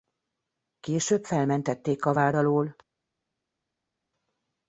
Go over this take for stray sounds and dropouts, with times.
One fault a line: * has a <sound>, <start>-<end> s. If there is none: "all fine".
all fine